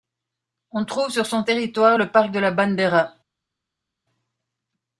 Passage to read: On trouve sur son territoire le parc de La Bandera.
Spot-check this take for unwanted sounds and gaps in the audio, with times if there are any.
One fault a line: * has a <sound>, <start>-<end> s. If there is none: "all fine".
all fine